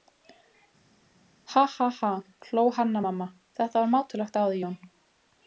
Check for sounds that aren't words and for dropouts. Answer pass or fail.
pass